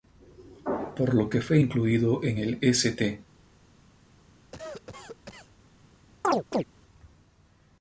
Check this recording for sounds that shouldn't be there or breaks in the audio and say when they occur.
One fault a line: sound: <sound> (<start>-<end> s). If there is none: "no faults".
sound: cough (4.5-5.5 s)
sound: chirp (6.2-6.6 s)